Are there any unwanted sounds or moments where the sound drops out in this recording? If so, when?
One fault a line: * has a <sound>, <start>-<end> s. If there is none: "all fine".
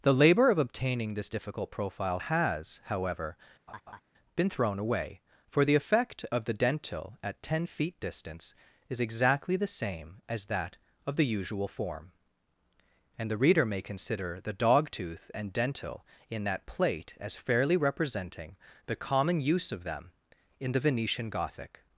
* has a laugh, 3.7-4.0 s